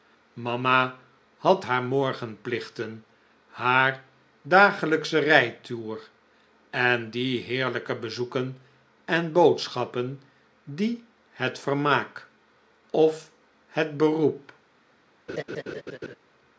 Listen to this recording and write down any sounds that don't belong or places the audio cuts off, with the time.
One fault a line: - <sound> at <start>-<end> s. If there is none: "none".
- laugh at 15.3-16.2 s